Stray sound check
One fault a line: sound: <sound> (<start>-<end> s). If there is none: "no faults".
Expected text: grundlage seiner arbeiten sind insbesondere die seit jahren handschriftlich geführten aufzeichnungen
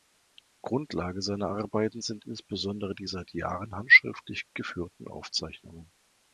no faults